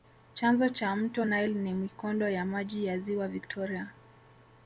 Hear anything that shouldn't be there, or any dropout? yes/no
no